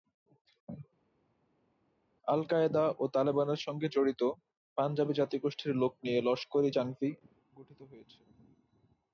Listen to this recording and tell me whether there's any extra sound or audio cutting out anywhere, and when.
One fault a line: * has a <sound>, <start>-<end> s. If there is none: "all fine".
all fine